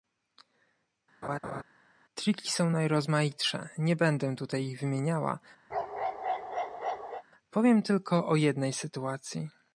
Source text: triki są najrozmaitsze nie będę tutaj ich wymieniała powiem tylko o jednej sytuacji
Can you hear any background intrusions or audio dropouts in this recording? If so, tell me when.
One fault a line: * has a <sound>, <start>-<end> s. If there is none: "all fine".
* has a laugh, 1.2-1.6 s
* has a bark, 5.7-7.2 s